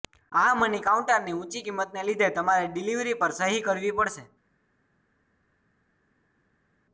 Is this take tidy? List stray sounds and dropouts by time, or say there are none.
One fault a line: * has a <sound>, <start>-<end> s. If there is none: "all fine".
all fine